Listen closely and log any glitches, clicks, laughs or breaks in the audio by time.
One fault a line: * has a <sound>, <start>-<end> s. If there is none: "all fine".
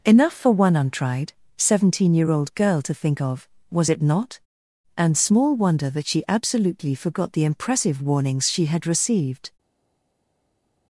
all fine